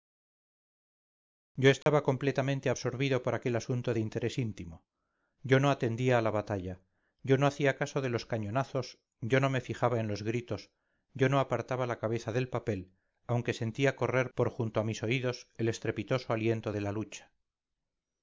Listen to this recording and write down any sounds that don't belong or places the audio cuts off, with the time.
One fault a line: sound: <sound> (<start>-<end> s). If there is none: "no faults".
sound: dropout (1.8-1.9 s)